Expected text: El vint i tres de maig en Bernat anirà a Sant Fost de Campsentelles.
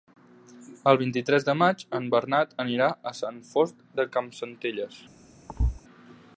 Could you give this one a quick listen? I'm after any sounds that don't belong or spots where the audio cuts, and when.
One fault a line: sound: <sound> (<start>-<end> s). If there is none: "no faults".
sound: thud (5.5-5.8 s)